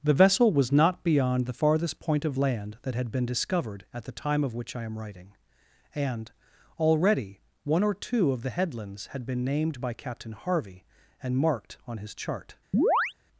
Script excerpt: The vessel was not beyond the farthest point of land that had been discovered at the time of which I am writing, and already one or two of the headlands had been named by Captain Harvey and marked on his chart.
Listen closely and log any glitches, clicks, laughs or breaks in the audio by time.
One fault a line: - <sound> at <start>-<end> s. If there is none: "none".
- chirp at 12.7-13.1 s